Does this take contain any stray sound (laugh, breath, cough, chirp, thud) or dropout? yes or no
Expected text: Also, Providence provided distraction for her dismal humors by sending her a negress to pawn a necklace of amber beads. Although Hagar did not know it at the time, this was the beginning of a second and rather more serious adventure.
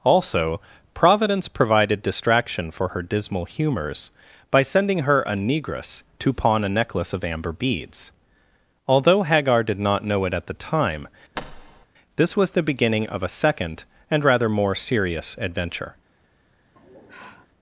yes